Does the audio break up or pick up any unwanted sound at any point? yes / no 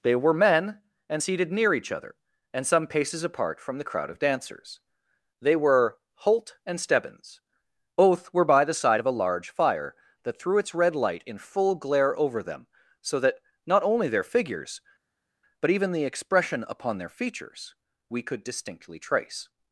no